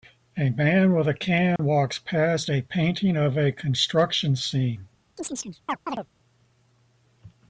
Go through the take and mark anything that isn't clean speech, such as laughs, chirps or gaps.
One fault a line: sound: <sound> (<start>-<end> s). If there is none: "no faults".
sound: dropout (1.6-1.6 s)
sound: chirp (5.2-6.1 s)